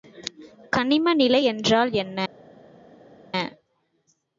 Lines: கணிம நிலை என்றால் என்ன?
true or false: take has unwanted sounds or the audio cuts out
false